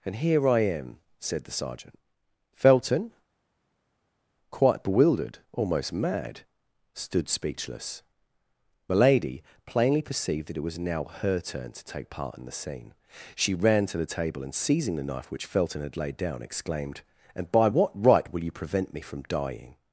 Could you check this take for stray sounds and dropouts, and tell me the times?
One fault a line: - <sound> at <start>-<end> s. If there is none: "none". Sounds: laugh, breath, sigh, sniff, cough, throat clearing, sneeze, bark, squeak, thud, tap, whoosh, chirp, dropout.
none